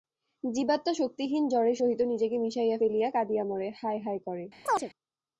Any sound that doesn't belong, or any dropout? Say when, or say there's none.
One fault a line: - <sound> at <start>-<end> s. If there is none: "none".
- chirp at 4.7-4.9 s